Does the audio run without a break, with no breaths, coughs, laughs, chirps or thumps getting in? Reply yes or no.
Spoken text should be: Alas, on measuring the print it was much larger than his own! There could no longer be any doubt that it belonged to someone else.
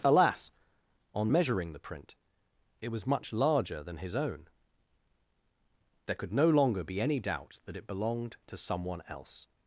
yes